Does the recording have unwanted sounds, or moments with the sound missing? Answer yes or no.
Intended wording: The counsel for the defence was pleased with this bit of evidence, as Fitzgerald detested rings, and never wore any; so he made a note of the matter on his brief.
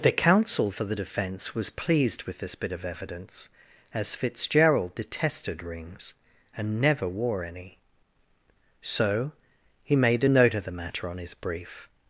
no